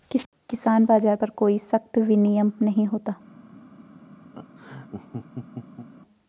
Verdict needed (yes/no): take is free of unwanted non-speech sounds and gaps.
no